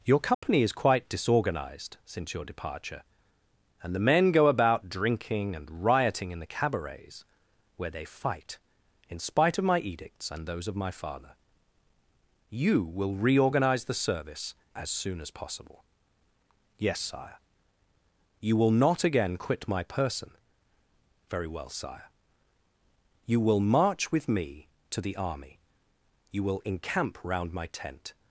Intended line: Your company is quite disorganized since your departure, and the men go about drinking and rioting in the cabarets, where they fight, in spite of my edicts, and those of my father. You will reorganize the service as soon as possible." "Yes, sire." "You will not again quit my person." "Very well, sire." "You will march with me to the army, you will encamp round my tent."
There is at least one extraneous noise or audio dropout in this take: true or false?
true